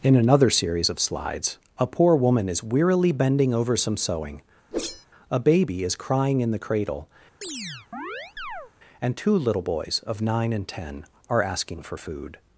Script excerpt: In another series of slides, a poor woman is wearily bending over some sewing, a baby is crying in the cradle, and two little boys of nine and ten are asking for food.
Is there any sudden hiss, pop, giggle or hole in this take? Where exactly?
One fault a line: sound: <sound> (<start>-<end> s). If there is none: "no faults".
sound: whoosh (4.7-5.1 s)
sound: chirp (7.4-8.7 s)